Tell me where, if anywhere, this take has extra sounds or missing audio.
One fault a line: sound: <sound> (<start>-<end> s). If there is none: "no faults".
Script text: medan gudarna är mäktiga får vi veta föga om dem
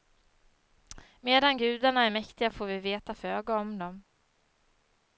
no faults